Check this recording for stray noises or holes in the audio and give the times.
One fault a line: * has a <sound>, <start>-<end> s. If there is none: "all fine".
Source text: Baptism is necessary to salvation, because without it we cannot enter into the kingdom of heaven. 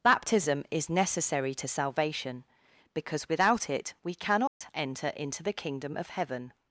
* has a dropout, 4.5-4.6 s